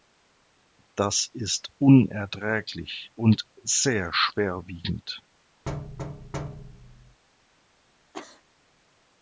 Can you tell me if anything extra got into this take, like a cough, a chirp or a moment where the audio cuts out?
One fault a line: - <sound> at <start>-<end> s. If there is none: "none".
- thud at 5.7-7.2 s
- cough at 8.1-8.4 s